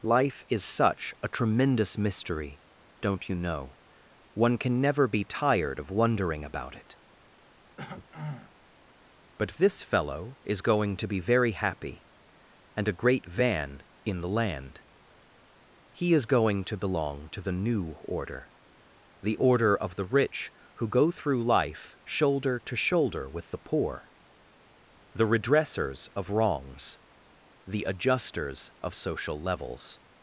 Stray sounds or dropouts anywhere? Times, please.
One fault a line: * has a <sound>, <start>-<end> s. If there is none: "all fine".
* has a throat clearing, 7.8-8.5 s